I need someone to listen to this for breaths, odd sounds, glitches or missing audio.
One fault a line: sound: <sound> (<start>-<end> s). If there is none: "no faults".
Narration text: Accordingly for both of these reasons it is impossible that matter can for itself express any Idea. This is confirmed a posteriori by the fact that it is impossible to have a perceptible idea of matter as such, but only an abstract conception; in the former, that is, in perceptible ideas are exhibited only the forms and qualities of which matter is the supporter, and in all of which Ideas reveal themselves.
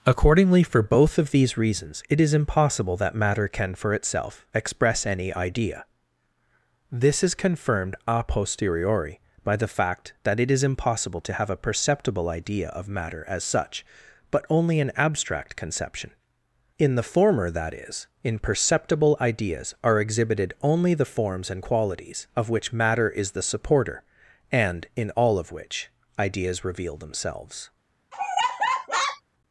sound: laugh (28.1-29.2 s)